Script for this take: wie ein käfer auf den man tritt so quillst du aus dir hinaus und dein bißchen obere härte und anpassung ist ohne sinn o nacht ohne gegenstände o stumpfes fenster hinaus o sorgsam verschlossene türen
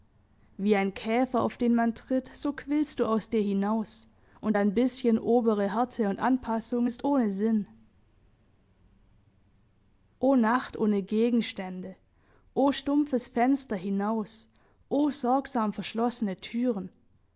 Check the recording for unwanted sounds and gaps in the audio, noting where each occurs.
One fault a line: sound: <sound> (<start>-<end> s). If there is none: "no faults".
no faults